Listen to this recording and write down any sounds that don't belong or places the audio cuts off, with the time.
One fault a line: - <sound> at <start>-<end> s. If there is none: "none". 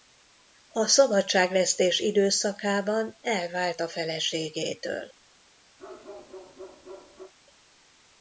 - bark at 5.8-7.3 s